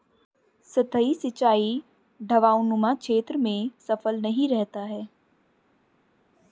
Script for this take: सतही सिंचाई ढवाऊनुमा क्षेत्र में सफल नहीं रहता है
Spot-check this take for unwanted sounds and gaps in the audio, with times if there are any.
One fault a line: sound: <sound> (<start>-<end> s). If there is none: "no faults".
no faults